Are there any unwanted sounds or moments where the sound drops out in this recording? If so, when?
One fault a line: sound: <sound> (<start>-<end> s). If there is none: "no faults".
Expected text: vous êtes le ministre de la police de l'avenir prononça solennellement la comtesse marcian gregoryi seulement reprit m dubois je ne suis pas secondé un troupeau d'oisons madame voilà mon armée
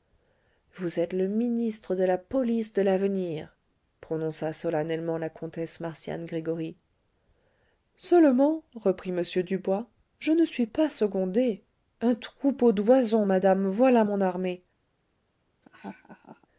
sound: laugh (15.6-16.5 s)